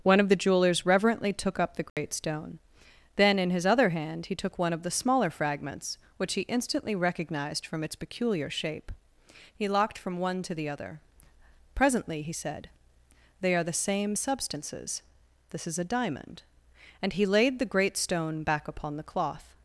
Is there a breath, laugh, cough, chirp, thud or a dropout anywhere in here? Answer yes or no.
yes